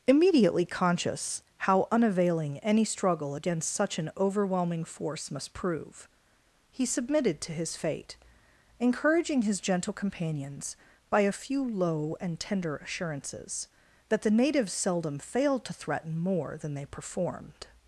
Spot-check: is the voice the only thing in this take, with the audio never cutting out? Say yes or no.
yes